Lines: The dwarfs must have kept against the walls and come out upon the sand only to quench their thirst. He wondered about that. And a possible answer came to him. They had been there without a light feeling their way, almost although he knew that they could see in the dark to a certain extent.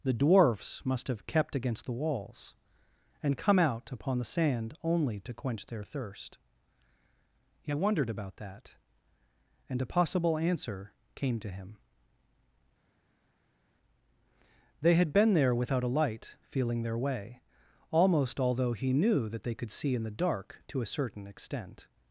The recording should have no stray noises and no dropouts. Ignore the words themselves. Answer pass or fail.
pass